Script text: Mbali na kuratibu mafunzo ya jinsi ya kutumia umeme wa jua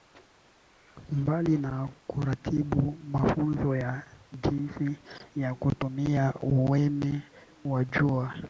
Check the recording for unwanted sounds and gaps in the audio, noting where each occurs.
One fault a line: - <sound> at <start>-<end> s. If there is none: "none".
none